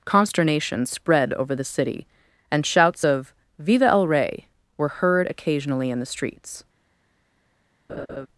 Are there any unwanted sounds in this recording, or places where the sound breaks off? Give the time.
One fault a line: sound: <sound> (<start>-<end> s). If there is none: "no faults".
sound: laugh (7.9-8.3 s)